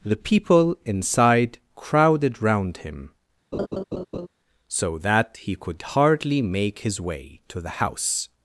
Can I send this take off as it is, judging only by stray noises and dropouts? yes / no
no